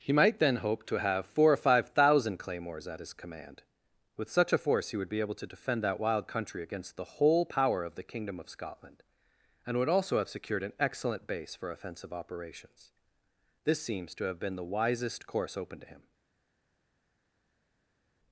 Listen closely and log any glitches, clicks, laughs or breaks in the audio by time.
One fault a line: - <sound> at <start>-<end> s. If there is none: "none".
none